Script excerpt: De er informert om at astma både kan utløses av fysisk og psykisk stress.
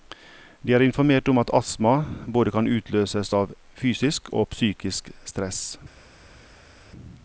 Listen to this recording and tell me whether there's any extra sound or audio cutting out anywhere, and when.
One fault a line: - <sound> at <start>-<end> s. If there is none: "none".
none